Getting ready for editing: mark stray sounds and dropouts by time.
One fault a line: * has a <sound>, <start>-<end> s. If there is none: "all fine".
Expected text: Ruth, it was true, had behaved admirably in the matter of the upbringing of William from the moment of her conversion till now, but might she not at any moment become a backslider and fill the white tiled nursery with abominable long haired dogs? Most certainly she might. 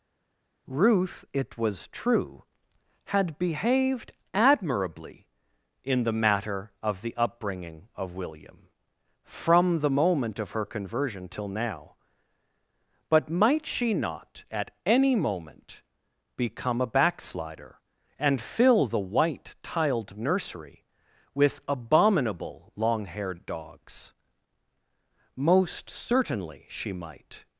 all fine